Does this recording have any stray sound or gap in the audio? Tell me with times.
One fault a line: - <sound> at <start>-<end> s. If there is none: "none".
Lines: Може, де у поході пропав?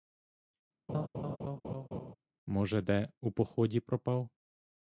- laugh at 0.9-2.1 s